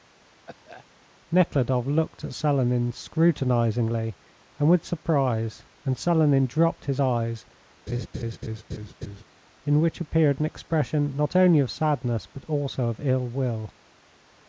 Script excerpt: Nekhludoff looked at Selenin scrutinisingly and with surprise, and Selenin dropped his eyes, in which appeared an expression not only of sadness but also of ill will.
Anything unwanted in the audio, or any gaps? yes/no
yes